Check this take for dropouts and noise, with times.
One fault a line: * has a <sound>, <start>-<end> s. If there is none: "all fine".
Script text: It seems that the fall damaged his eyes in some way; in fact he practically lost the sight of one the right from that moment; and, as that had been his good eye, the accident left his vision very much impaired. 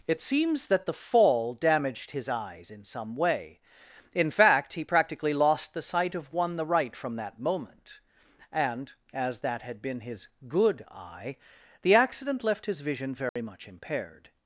* has a dropout, 13.3-13.4 s